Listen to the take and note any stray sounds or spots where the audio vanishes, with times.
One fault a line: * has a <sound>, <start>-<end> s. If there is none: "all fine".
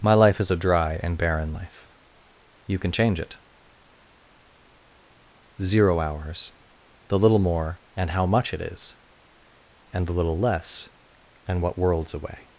all fine